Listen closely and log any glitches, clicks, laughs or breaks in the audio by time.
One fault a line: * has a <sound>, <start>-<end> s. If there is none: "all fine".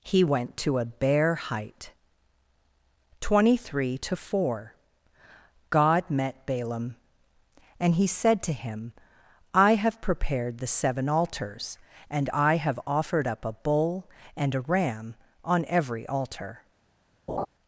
* has a laugh, 17.3-17.5 s